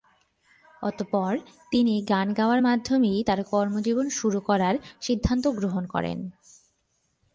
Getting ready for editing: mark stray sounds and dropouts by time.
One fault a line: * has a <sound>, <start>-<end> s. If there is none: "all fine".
all fine